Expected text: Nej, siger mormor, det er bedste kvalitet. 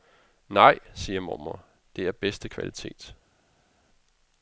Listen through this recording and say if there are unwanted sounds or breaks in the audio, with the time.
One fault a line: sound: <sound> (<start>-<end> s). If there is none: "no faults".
no faults